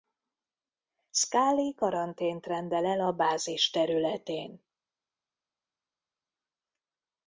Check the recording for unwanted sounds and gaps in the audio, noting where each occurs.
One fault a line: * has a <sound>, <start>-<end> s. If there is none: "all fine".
all fine